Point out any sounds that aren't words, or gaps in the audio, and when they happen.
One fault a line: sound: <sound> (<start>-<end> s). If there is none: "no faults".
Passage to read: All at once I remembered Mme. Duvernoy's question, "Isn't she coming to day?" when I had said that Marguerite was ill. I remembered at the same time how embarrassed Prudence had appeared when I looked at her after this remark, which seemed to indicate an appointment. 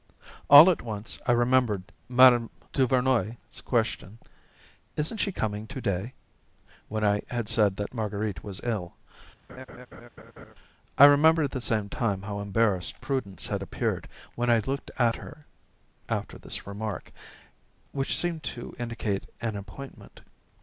sound: laugh (9.5-10.5 s)